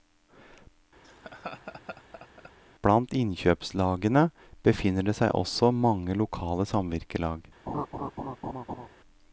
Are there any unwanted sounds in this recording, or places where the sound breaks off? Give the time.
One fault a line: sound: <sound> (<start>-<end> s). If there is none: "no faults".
sound: laugh (1.0-2.5 s)
sound: laugh (7.7-8.9 s)